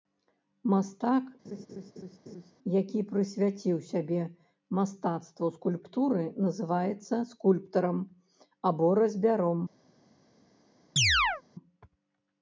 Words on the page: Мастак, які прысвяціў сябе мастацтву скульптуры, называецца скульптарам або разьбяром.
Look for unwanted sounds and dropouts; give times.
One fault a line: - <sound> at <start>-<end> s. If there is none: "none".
- laugh at 1.4-2.5 s
- chirp at 11.0-11.4 s